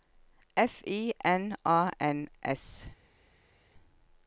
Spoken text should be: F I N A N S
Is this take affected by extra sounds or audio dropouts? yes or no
no